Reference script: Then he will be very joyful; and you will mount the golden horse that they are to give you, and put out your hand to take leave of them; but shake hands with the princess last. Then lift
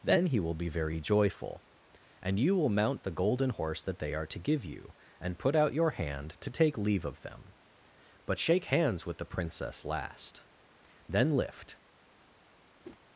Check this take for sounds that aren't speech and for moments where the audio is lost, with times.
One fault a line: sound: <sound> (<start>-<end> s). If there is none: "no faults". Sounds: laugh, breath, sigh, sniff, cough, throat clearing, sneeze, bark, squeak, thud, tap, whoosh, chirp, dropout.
sound: whoosh (12.8-13.0 s)